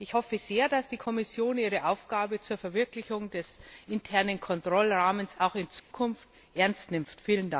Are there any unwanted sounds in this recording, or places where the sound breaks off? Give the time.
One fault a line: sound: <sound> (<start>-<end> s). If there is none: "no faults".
sound: dropout (5.8-5.9 s)